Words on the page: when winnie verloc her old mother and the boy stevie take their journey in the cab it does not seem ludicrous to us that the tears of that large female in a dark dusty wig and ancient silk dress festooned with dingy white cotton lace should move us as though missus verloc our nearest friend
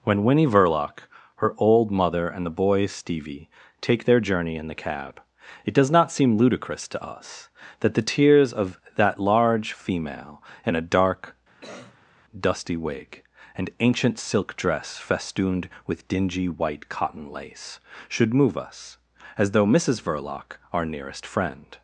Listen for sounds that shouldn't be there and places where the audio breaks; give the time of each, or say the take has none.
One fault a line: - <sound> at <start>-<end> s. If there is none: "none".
- cough at 11.6-12.1 s